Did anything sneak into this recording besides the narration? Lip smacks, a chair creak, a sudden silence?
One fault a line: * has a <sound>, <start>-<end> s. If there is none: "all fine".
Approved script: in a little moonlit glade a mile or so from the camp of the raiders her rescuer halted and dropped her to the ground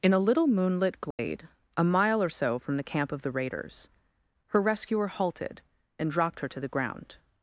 * has a dropout, 1.1-1.2 s